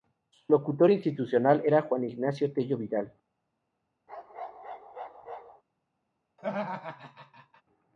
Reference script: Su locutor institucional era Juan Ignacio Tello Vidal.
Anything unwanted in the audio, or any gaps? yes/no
yes